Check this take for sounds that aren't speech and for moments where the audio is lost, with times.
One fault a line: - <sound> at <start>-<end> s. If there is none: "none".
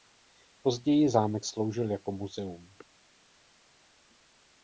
none